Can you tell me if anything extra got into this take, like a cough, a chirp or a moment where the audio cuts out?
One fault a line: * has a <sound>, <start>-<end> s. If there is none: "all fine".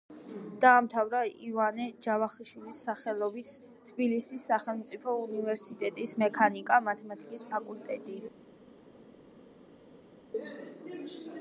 all fine